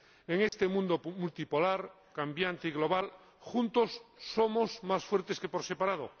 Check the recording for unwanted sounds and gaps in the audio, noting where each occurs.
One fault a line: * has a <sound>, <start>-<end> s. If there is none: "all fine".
* has a dropout, 0.5-0.5 s